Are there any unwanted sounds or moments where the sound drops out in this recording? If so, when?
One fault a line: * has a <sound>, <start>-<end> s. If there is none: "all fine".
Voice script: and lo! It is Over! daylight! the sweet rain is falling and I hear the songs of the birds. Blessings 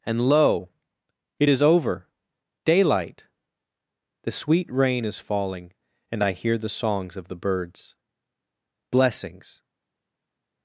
all fine